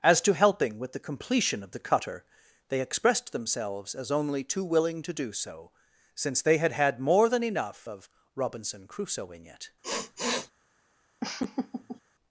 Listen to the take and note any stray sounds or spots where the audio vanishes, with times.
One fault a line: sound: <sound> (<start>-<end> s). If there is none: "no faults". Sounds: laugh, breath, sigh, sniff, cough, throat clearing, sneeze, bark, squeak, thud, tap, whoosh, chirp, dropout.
sound: sniff (9.8-10.5 s)
sound: laugh (11.2-12.0 s)